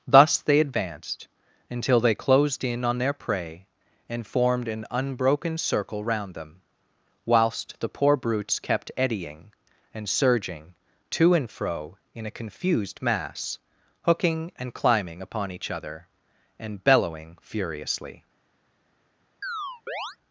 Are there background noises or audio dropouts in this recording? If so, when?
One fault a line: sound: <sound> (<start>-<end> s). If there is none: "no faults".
sound: chirp (19.4-20.2 s)